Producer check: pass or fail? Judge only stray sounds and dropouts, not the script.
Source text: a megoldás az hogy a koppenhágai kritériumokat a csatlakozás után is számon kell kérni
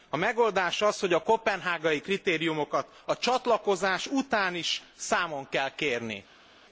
pass